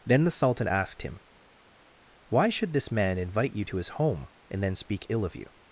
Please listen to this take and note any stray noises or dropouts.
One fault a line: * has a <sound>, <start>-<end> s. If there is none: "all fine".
all fine